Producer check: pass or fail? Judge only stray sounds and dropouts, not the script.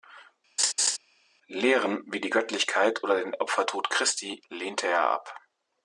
fail